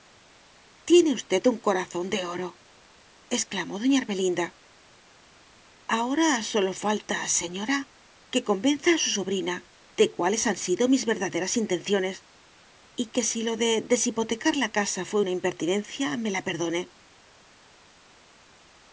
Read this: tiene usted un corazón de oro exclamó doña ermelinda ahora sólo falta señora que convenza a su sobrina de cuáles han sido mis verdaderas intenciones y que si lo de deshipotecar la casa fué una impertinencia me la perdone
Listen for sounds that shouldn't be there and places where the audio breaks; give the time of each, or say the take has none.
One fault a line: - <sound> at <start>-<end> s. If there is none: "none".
none